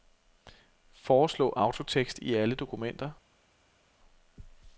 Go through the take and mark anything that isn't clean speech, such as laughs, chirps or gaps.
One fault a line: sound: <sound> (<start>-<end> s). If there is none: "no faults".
no faults